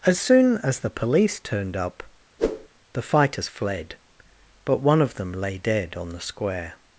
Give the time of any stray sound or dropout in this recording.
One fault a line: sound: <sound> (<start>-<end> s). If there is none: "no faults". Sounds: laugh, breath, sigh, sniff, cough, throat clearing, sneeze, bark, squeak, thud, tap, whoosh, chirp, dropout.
sound: whoosh (2.4-2.7 s)